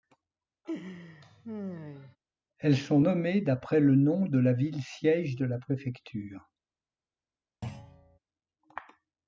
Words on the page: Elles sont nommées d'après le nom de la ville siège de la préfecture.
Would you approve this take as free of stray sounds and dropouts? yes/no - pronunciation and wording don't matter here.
no